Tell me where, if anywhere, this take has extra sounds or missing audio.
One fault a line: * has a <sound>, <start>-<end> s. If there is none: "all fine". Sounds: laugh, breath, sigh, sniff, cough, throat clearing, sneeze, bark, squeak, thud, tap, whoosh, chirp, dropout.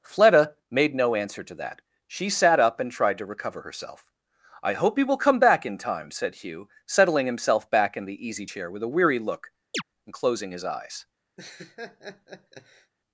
* has a chirp, 9.7-9.8 s
* has a laugh, 11.4-12.9 s